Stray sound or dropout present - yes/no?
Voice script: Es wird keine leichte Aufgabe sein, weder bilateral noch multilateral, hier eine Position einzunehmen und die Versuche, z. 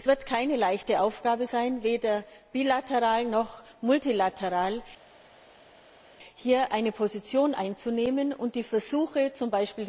no